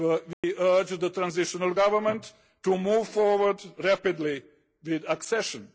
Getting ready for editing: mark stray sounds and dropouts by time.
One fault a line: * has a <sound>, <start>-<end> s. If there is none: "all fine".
* has a dropout, 0.3-0.4 s